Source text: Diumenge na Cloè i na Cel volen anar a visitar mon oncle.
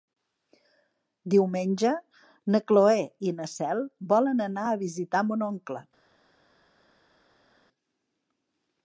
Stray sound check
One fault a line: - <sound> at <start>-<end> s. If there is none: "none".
none